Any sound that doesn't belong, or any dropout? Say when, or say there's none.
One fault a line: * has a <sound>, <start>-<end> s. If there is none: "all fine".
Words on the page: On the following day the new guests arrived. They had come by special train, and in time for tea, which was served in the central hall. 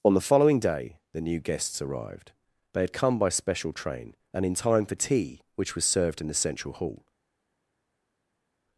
all fine